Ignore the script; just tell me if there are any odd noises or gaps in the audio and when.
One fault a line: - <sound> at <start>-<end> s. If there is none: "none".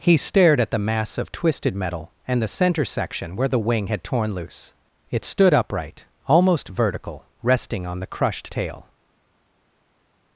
none